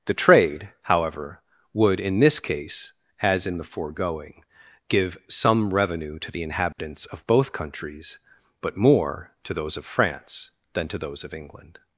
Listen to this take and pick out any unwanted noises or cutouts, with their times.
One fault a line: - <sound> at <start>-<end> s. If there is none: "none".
- dropout at 6.7-6.8 s